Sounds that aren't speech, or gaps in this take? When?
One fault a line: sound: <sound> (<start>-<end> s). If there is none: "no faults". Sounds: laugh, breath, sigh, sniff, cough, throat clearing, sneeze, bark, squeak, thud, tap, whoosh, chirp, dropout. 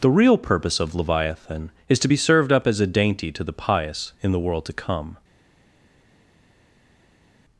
no faults